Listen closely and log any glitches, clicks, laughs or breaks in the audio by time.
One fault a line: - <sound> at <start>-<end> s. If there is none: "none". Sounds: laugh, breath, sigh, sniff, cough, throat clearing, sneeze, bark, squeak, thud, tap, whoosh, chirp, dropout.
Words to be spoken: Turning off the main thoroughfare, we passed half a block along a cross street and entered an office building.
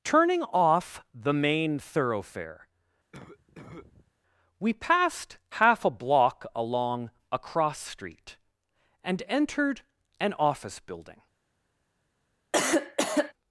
- cough at 3.1-4.1 s
- cough at 12.5-13.3 s